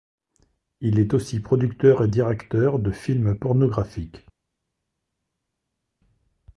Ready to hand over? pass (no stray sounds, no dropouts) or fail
pass